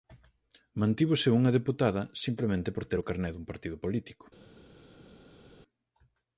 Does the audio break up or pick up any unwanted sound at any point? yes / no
no